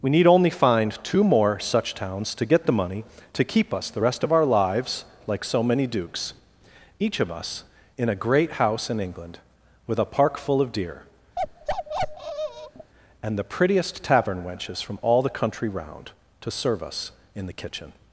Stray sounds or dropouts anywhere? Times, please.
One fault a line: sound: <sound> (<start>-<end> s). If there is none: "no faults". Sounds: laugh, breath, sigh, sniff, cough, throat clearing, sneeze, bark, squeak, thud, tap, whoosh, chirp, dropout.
sound: bark (11.4-12.9 s)